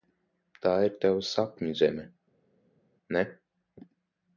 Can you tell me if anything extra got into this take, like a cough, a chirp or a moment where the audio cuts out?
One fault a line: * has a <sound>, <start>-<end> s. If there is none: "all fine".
all fine